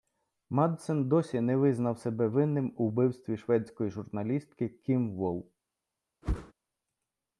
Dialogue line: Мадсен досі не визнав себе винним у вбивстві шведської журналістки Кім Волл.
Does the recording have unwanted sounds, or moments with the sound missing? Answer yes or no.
yes